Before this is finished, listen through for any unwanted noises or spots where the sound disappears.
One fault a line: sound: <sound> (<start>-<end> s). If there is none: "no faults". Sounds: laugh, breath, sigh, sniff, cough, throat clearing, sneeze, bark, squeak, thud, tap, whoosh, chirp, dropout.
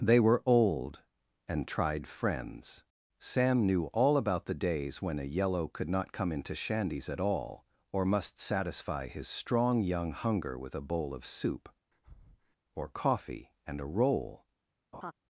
sound: breath (11.9-12.6 s)
sound: laugh (14.9-15.1 s)